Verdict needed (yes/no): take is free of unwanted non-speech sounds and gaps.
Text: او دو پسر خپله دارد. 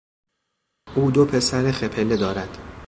yes